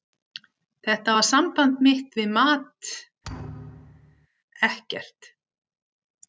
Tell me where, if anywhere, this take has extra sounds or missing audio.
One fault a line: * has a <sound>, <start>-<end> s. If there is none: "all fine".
* has a thud, 3.2-4.3 s